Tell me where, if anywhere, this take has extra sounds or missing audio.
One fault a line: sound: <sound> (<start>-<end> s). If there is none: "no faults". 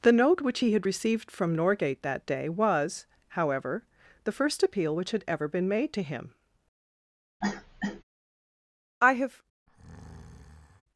sound: cough (7.4-8.0 s)
sound: breath (9.7-10.8 s)